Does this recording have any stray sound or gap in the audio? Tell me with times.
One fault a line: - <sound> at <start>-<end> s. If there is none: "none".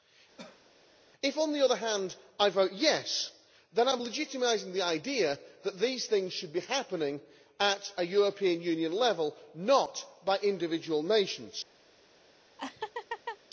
- cough at 0.4-0.7 s
- laugh at 12.6-13.4 s